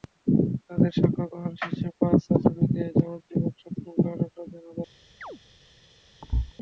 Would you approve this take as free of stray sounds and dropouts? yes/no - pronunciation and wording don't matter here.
no